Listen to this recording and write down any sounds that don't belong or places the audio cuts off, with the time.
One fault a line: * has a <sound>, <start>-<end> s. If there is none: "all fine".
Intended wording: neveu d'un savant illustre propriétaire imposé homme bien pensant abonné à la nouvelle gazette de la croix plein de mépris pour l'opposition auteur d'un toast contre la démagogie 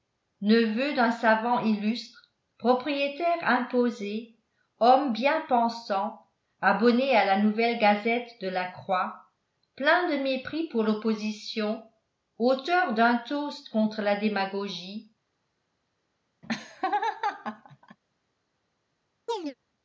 * has a laugh, 16.4-18.0 s
* has a chirp, 19.3-19.6 s